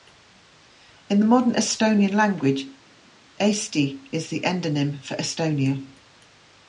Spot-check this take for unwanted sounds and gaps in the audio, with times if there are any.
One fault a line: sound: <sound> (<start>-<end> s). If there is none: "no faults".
no faults